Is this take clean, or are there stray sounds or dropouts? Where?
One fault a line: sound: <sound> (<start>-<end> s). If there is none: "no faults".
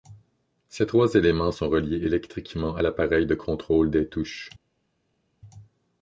no faults